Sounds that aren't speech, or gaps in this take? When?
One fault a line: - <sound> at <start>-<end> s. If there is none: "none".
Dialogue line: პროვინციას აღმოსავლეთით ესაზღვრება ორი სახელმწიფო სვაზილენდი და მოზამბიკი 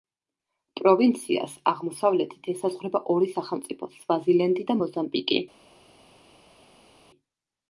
none